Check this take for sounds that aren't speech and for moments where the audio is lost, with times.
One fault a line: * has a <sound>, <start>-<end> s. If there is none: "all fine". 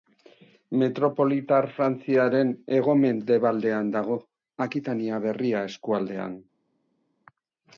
all fine